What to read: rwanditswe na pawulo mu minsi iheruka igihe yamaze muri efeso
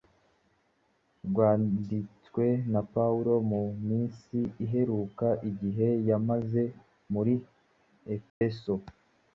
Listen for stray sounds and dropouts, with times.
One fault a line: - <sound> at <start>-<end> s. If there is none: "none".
- dropout at 8.3-8.4 s